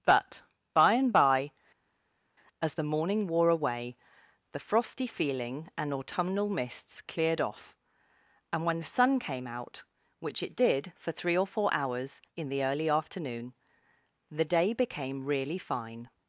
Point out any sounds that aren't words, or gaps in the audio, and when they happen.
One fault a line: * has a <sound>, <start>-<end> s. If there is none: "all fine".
all fine